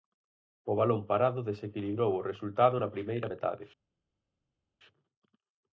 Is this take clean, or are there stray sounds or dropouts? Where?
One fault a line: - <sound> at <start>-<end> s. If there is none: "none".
none